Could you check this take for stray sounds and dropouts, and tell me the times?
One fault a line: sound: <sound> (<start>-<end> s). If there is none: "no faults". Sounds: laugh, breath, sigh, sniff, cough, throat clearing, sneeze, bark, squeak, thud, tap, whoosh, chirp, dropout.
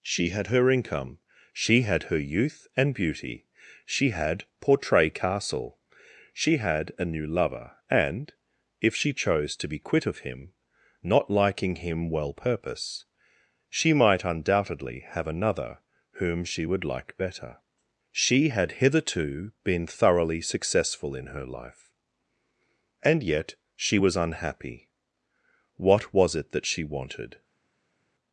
no faults